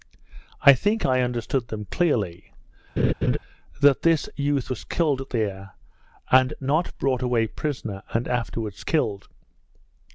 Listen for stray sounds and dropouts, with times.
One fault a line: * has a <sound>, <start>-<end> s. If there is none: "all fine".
* has a laugh, 3.0-3.4 s